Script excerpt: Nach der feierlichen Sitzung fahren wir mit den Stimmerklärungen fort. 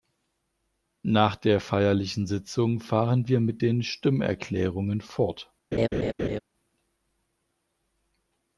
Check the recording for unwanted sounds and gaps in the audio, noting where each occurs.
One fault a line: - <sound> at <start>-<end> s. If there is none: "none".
- laugh at 5.7-6.4 s